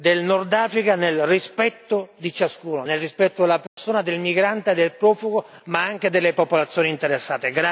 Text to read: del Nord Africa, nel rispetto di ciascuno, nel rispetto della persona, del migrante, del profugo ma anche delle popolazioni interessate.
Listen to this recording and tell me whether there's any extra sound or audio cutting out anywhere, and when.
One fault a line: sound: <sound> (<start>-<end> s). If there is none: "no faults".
sound: dropout (3.7-3.8 s)